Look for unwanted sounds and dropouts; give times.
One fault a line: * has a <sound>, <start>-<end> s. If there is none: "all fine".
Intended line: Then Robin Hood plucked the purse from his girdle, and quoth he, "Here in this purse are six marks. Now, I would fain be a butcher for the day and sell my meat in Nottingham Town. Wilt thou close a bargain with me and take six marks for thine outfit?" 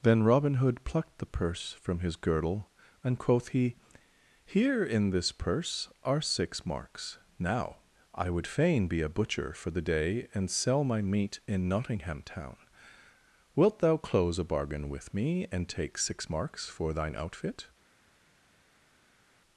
all fine